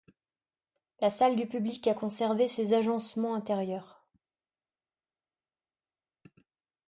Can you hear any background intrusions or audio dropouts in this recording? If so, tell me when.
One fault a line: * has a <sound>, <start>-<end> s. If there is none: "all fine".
all fine